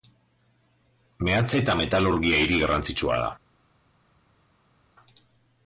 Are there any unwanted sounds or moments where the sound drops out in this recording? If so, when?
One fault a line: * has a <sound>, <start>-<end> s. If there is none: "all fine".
all fine